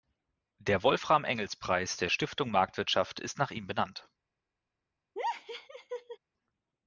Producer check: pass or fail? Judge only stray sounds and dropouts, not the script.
fail